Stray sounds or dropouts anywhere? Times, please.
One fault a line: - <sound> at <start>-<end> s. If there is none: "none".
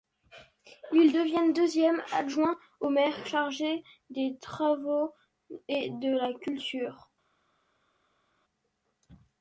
none